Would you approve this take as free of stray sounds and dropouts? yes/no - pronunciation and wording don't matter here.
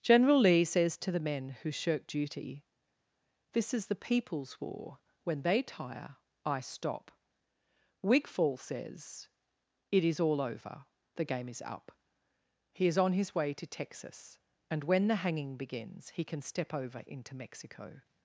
yes